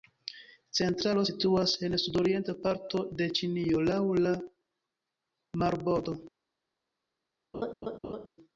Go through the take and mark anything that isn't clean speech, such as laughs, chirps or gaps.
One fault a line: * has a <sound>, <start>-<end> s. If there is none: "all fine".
* has a laugh, 7.5-8.3 s